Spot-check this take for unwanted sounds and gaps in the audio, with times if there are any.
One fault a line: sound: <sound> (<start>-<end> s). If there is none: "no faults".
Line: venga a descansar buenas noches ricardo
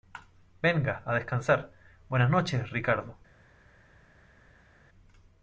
no faults